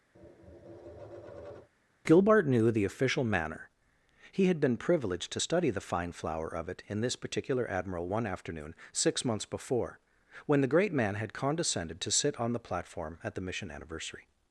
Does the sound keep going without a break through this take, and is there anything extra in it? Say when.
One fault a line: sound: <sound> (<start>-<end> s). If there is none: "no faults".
sound: tap (0.1-1.7 s)